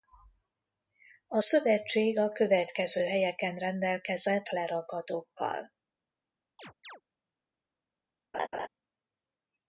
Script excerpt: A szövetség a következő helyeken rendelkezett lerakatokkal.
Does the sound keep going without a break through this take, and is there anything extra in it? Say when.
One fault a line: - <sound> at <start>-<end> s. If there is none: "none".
- chirp at 6.6-7.0 s
- laugh at 8.3-8.7 s